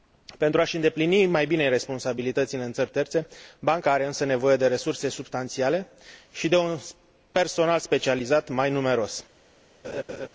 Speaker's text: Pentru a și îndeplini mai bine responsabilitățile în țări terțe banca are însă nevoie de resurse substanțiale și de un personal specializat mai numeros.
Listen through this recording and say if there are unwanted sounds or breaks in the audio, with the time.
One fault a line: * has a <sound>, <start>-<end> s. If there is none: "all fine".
* has a laugh, 9.8-10.3 s